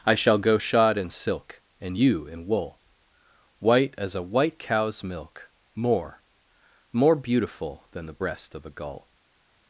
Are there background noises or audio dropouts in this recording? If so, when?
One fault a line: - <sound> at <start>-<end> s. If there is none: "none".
none